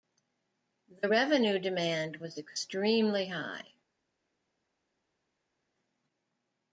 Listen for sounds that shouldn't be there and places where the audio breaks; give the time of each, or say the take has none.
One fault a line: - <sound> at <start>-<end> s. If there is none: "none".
none